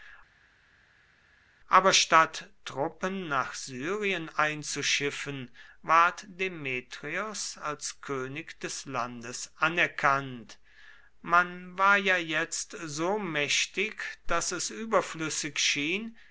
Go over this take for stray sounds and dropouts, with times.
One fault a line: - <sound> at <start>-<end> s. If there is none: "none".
none